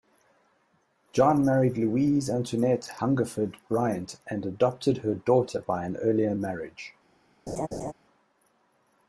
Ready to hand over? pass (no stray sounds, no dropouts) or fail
fail